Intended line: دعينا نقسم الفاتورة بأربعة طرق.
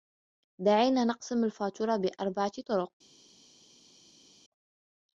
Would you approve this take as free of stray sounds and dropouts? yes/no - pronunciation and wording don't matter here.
yes